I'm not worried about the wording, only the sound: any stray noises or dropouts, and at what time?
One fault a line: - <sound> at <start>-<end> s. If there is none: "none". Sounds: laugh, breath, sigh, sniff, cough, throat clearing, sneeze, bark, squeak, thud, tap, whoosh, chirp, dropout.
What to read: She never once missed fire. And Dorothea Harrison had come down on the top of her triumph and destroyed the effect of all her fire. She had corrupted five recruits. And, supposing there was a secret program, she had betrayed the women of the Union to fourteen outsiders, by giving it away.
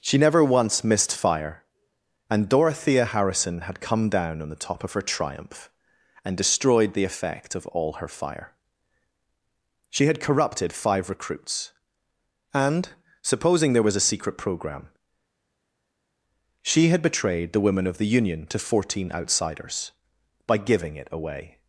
none